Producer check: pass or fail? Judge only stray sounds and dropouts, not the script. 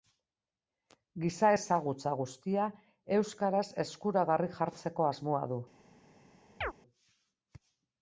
fail